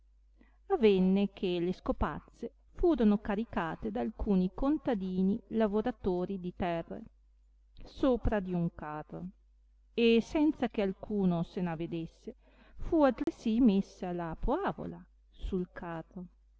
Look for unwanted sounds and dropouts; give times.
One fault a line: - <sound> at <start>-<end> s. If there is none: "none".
- dropout at 13.2-13.3 s